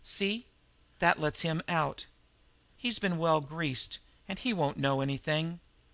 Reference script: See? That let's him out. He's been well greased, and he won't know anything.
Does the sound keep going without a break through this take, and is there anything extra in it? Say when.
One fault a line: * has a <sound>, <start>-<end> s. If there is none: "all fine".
all fine